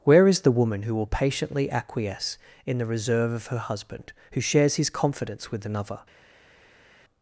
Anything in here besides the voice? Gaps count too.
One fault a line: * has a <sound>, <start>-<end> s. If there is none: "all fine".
all fine